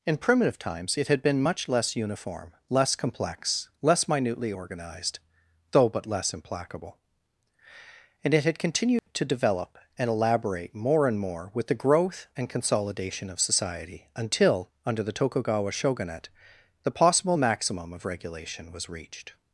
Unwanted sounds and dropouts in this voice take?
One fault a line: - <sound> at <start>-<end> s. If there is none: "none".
- dropout at 9.0-9.1 s